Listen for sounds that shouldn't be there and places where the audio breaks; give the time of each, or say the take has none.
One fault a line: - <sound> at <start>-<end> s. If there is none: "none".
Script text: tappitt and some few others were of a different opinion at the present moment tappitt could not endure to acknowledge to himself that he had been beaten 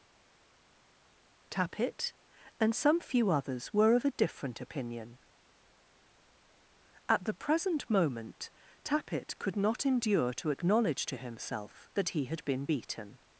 none